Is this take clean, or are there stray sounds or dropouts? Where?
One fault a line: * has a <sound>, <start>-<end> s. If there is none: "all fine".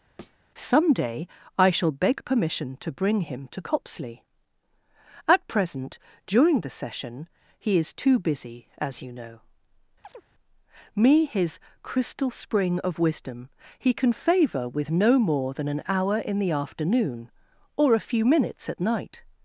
* has a thud, 0.2-0.4 s
* has a chirp, 10.0-10.3 s